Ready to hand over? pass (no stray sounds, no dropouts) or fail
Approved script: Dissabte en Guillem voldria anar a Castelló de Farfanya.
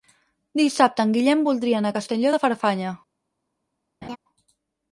fail